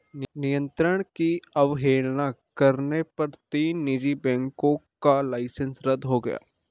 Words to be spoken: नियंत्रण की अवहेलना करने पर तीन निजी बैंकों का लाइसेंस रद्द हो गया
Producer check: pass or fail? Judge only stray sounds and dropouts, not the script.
pass